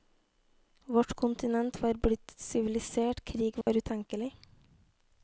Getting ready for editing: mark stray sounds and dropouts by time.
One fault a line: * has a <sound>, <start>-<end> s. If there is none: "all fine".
* has a dropout, 3.6-3.7 s